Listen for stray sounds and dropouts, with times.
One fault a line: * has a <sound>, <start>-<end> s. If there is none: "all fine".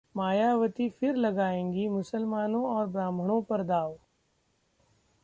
all fine